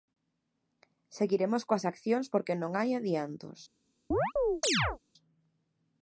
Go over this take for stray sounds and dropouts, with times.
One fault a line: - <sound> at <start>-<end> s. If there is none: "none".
- chirp at 4.1-5.0 s